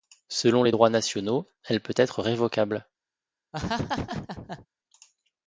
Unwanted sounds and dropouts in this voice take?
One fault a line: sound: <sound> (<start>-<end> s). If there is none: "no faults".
sound: laugh (3.5-4.7 s)